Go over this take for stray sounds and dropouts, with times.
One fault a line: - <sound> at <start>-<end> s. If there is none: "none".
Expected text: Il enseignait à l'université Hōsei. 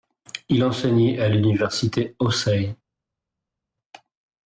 none